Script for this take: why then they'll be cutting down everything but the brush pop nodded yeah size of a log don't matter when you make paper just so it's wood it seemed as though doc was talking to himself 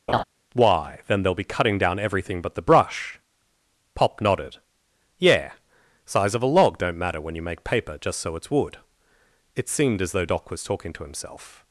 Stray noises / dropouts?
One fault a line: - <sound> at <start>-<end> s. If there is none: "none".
- laugh at 0.1-0.2 s